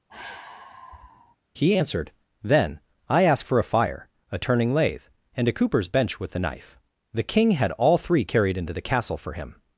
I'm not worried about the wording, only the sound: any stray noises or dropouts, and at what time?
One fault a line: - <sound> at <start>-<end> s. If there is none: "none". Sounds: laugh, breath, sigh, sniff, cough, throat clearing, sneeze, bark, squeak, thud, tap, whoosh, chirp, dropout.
- sigh at 0.1-1.4 s